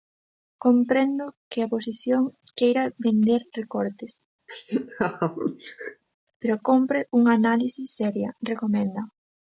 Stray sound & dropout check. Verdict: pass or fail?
fail